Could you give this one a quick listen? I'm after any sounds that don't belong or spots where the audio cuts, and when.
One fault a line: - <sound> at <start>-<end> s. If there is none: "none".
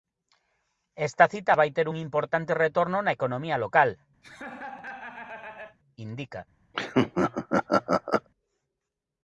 - laugh at 4.2-5.8 s
- laugh at 6.7-8.3 s